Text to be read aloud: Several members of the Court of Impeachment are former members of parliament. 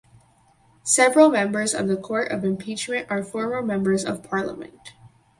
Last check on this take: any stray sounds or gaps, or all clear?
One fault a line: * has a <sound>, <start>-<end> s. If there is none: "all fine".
all fine